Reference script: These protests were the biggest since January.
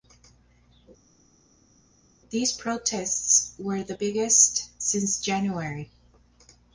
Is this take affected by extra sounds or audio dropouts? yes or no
no